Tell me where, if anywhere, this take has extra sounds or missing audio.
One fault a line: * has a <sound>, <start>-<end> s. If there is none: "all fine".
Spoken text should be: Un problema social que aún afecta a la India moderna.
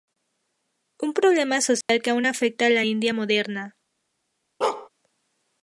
* has a dropout, 1.8-1.9 s
* has a bark, 4.6-4.9 s